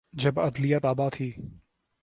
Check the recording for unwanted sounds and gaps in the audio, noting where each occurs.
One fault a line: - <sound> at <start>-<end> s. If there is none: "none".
none